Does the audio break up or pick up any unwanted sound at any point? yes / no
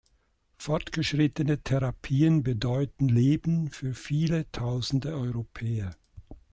no